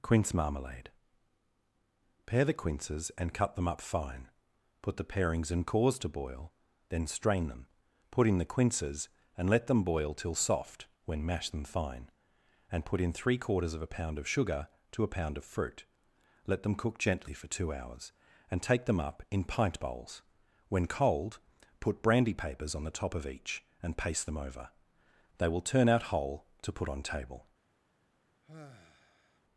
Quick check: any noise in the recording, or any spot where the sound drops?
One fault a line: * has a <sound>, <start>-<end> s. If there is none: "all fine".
* has a sigh, 28.4-29.4 s